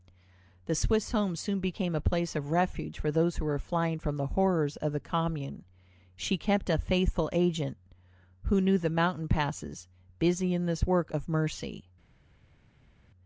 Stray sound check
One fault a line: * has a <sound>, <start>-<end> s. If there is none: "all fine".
all fine